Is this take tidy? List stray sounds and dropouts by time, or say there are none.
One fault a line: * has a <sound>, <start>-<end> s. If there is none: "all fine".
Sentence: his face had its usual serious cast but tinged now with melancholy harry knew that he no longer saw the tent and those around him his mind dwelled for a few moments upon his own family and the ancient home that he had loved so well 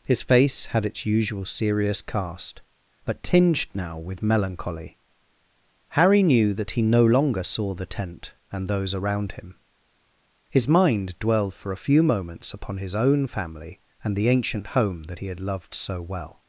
all fine